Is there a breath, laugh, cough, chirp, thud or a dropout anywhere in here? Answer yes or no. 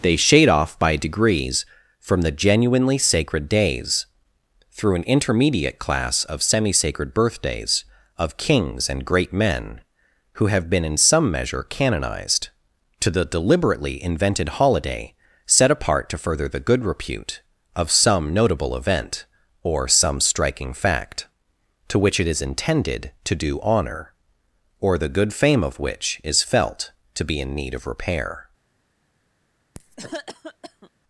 yes